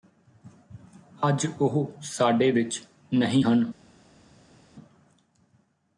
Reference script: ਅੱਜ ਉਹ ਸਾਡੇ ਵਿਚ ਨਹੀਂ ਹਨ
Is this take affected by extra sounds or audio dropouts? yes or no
no